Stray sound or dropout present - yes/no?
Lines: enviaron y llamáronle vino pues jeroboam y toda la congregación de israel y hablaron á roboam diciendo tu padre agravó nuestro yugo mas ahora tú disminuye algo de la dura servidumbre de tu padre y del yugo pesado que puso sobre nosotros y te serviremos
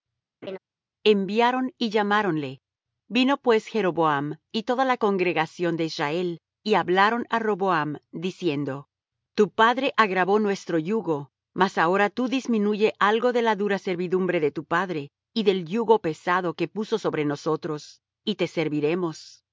yes